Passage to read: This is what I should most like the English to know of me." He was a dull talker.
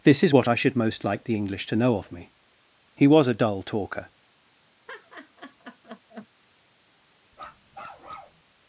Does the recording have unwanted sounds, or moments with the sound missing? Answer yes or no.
yes